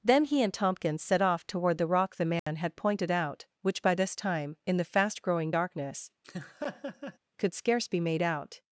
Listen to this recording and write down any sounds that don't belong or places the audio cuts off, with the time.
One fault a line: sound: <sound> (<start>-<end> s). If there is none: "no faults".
sound: dropout (2.4-2.5 s)
sound: laugh (6.2-7.2 s)